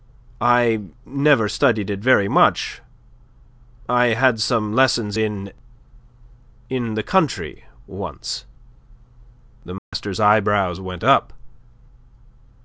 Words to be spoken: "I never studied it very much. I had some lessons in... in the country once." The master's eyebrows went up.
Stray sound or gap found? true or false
true